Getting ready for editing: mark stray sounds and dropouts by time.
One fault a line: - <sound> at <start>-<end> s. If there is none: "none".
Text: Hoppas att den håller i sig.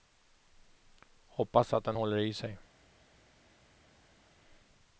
none